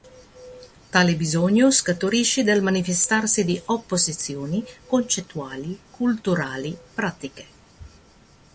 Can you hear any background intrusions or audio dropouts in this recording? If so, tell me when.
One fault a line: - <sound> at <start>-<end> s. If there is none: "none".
none